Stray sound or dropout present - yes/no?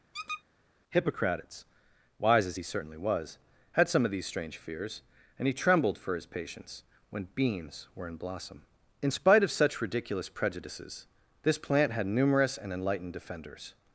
yes